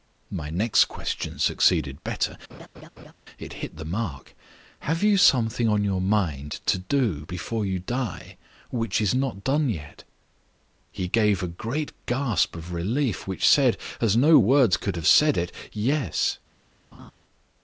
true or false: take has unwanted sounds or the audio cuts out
true